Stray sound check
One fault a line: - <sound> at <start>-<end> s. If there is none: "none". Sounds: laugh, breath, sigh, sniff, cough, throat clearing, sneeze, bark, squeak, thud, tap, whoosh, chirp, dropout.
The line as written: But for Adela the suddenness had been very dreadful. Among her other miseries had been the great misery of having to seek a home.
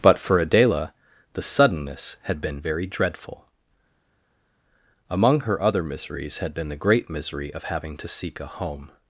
none